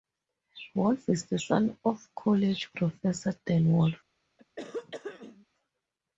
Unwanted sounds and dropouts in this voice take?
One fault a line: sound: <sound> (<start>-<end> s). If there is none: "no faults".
sound: throat clearing (4.4-5.5 s)